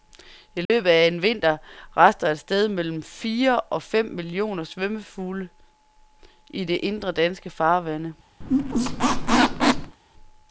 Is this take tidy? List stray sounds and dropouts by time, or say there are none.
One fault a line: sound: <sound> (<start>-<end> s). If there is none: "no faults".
sound: dropout (0.6-0.7 s)
sound: squeak (8.4-10.0 s)